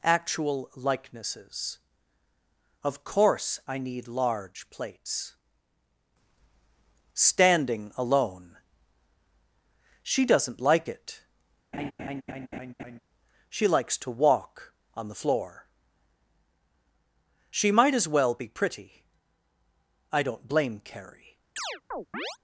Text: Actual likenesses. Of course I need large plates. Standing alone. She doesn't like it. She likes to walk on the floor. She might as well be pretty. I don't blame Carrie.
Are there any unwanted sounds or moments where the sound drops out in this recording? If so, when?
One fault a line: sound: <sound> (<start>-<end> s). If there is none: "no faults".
sound: laugh (11.7-13.0 s)
sound: chirp (21.6-22.4 s)